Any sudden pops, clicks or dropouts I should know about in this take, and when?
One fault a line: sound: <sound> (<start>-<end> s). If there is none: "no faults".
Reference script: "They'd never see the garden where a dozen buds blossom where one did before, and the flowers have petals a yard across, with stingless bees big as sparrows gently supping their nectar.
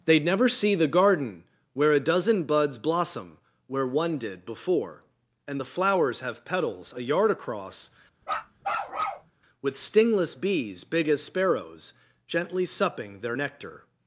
sound: bark (8.2-9.3 s)